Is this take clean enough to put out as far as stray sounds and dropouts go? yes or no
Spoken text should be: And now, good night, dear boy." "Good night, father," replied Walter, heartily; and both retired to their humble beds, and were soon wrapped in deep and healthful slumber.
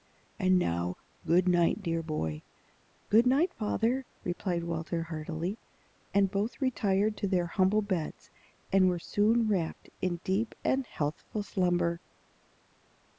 yes